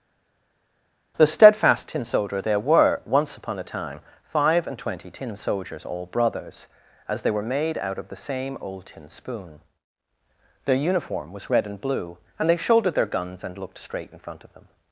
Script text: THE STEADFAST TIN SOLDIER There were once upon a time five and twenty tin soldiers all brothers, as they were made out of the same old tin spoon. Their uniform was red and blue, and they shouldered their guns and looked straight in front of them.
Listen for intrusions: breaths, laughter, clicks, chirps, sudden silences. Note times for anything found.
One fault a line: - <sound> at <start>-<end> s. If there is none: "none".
none